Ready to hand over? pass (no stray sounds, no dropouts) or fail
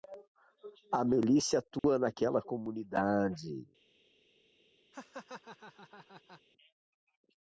fail